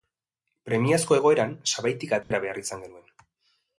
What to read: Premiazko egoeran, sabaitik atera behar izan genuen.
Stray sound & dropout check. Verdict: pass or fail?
fail